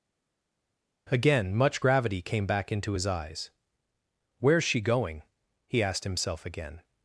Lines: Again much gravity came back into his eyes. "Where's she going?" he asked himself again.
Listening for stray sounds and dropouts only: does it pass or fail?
pass